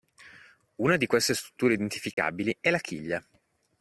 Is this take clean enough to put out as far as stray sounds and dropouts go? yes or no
no